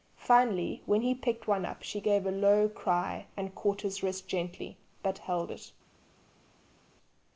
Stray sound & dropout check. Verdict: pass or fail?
pass